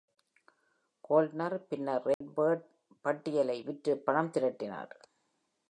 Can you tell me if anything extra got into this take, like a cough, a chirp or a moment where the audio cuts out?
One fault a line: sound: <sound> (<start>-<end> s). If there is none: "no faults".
sound: dropout (2.1-2.2 s)